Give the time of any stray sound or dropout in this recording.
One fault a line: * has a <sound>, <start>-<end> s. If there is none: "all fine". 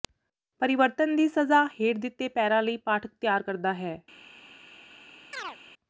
* has a chirp, 5.3-5.6 s